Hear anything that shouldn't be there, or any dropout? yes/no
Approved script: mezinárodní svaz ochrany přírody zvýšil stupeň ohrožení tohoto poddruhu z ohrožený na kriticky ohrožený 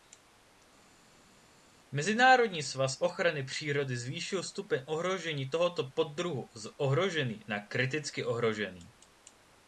no